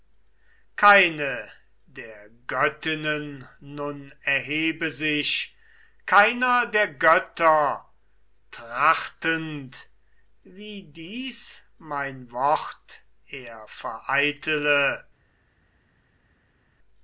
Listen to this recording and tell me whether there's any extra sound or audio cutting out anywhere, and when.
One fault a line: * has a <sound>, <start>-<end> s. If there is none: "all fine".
all fine